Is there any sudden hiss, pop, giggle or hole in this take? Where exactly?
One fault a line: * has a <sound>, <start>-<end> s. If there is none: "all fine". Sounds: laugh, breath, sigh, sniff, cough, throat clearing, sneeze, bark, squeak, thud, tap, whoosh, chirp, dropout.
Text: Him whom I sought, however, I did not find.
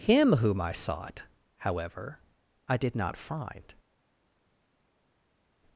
all fine